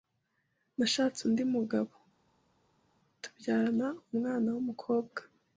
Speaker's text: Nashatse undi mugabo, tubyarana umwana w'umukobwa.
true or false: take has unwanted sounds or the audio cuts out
false